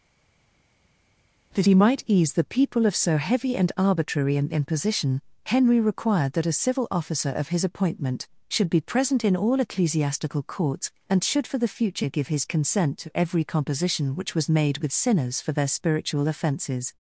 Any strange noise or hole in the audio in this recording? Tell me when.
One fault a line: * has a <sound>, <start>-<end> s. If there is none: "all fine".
all fine